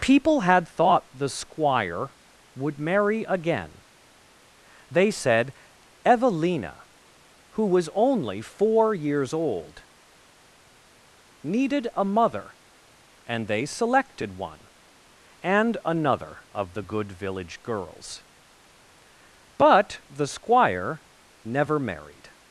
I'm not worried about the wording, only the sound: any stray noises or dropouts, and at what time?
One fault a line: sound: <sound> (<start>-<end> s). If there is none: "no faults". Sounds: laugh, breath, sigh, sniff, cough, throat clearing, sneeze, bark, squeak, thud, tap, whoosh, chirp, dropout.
no faults